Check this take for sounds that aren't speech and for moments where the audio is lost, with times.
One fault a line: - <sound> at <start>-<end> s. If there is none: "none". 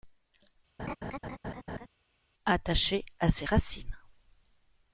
- laugh at 0.8-1.9 s